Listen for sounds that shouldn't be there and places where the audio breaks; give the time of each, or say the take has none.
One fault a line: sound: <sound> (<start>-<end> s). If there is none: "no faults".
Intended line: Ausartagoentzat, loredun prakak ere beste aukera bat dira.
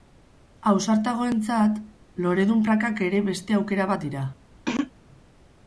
sound: throat clearing (4.7-4.9 s)